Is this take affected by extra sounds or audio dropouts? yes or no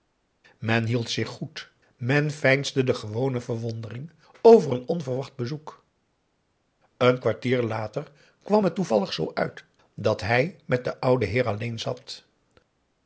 no